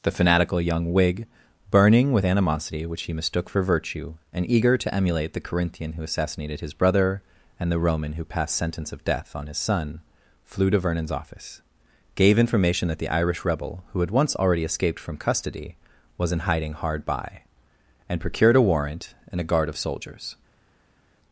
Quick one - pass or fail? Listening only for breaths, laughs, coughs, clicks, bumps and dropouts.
pass